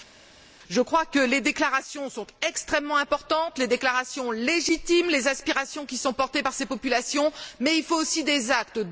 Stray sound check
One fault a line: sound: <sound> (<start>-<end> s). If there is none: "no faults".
no faults